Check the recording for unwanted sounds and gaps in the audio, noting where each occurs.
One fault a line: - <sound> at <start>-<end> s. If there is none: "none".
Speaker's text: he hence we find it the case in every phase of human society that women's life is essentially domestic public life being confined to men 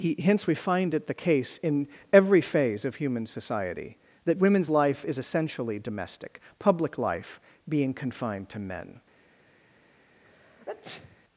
- sneeze at 10.2-11.2 s